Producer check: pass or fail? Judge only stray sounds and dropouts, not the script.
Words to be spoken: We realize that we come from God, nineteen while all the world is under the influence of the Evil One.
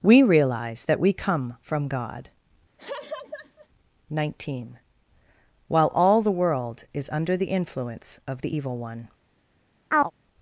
fail